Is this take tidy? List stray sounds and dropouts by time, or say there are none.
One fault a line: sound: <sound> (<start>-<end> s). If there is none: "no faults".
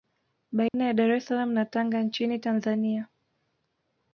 sound: dropout (0.7-0.7 s)